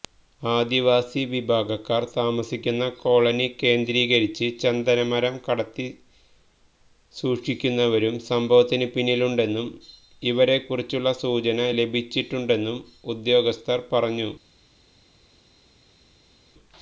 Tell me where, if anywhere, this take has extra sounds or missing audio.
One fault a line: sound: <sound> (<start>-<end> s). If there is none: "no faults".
no faults